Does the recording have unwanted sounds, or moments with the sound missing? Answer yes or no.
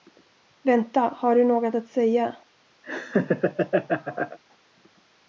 yes